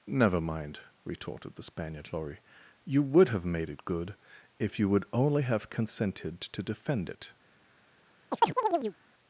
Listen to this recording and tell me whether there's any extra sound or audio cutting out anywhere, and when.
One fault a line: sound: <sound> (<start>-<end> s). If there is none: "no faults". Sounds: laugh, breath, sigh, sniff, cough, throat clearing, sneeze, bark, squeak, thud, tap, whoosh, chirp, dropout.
sound: chirp (8.3-9.0 s)